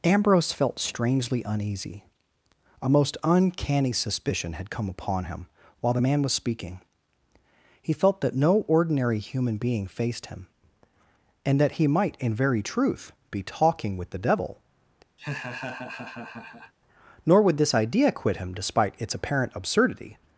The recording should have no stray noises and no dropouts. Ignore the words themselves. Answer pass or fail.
fail